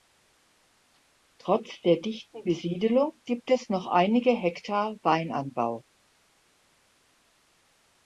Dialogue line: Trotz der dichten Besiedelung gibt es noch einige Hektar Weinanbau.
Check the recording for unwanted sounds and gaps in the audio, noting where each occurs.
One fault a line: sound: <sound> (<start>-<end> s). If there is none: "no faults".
no faults